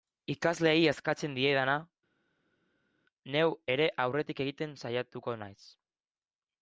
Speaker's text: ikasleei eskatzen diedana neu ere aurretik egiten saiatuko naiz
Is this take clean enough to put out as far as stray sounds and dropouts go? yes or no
yes